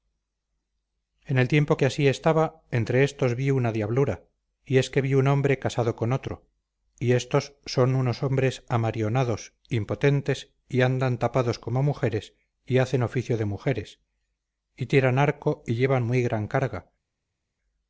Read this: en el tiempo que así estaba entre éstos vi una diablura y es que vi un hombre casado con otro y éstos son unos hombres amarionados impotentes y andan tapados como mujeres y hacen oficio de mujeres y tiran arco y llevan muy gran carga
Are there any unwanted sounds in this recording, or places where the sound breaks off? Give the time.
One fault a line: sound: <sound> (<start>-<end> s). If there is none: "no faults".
no faults